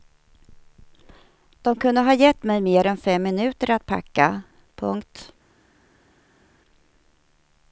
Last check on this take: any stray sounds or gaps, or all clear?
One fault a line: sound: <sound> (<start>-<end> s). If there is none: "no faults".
no faults